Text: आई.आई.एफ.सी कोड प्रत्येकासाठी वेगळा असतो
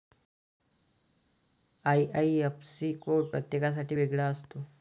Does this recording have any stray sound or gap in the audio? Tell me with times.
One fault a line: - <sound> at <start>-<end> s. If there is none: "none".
none